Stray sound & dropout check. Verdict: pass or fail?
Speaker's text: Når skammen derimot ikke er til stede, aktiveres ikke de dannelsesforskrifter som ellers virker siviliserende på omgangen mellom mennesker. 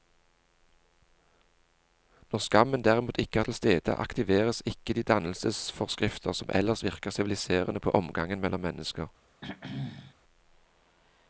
fail